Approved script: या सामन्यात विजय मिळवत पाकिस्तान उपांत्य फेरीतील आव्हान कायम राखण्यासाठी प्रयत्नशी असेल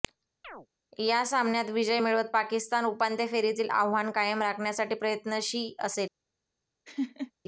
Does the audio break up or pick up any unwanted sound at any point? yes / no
yes